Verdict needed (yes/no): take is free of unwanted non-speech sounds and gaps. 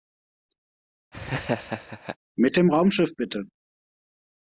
no